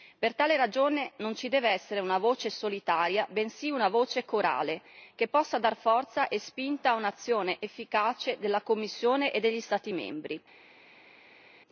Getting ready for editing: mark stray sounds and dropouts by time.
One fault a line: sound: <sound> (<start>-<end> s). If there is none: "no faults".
no faults